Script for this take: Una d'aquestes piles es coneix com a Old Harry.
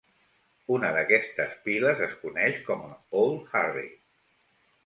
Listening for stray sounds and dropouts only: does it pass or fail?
pass